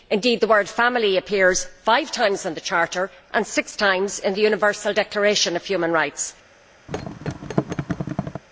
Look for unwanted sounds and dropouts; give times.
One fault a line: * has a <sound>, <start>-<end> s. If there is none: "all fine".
* has a thud, 6.9-8.4 s